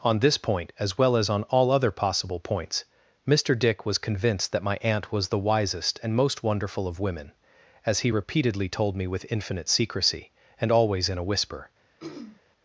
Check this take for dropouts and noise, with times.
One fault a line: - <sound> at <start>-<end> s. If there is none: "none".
- throat clearing at 12.0-12.4 s